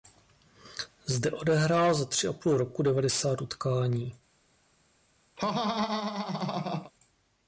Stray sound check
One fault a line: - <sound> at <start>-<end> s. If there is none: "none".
- laugh at 5.4-6.9 s